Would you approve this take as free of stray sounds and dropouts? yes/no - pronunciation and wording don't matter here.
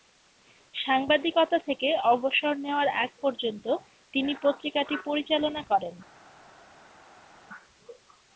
yes